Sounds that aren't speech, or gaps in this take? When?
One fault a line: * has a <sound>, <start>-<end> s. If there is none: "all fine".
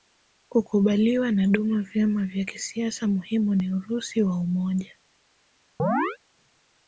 * has a chirp, 5.8-6.2 s